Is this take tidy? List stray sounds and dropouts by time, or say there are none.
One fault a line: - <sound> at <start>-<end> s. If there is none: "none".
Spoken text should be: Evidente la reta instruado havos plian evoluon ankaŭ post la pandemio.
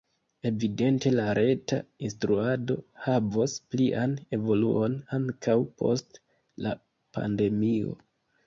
none